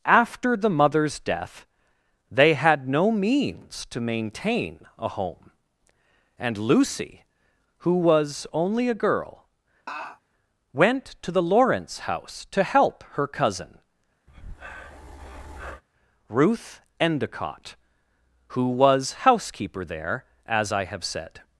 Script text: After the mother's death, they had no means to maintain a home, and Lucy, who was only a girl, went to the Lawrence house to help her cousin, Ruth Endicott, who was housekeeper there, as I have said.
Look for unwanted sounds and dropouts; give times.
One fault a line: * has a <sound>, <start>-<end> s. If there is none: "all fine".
* has a laugh, 9.9-10.2 s
* has a breath, 14.3-15.8 s